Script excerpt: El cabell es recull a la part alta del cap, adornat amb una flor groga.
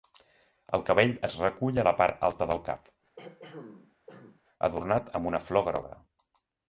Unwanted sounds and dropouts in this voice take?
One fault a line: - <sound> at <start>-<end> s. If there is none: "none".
- throat clearing at 3.2-4.4 s